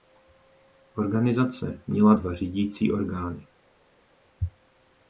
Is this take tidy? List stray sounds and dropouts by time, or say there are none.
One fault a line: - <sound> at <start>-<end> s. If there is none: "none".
none